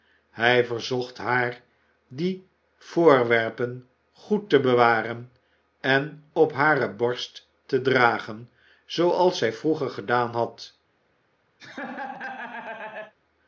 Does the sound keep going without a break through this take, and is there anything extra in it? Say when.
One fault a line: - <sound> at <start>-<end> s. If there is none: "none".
- laugh at 11.6-13.1 s